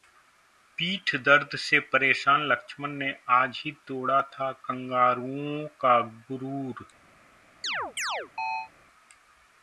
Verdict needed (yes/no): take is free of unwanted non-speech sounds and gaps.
no